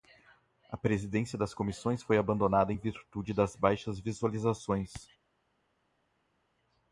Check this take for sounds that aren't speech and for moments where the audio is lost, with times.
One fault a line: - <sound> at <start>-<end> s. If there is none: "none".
none